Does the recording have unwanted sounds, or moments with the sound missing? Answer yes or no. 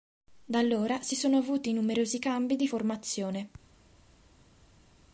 no